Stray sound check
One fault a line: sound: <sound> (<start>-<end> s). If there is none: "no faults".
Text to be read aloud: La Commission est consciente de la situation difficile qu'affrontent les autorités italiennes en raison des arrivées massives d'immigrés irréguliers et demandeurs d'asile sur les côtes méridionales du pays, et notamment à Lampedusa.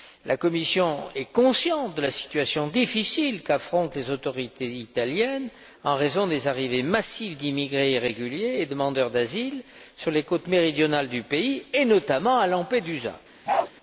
sound: bark (13.5-13.7 s)